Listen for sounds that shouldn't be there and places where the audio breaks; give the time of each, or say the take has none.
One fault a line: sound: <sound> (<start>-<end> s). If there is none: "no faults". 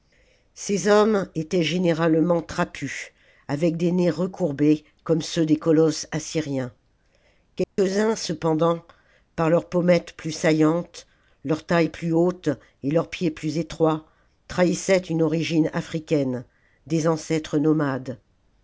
sound: dropout (7.6-7.8 s)